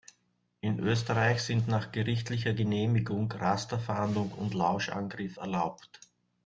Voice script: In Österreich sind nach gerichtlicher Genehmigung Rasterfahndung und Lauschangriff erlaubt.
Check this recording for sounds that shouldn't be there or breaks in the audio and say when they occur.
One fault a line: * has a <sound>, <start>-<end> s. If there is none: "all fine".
all fine